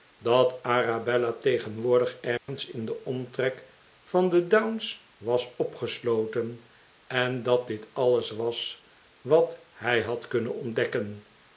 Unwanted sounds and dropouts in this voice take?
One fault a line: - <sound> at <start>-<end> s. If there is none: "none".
- dropout at 2.4-2.5 s